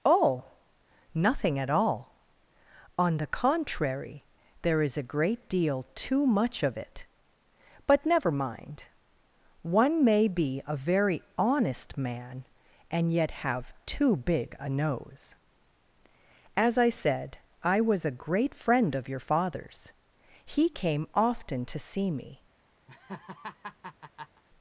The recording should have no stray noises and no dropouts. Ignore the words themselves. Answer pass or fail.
fail